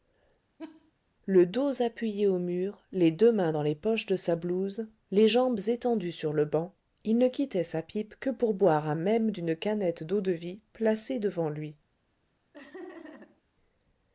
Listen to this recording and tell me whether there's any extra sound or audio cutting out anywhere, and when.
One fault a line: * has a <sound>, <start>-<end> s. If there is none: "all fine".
* has a laugh, 0.6-0.9 s
* has a laugh, 12.5-13.4 s